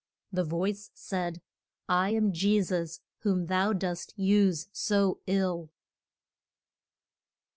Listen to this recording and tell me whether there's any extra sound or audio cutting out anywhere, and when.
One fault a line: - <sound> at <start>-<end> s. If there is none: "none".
none